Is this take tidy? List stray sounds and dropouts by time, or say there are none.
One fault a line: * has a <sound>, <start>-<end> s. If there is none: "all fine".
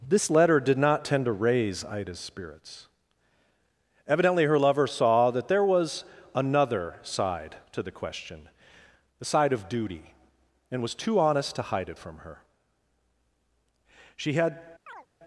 * has a chirp, 14.9-15.1 s